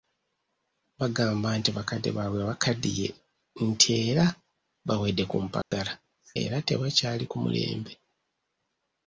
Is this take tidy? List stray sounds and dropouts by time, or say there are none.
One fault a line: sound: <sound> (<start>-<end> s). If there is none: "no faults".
sound: dropout (5.6-5.7 s)